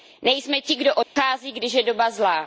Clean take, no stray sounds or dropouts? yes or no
no